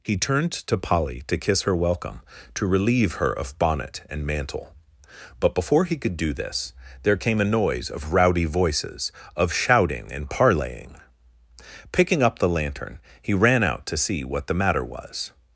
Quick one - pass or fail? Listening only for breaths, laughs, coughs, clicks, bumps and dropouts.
pass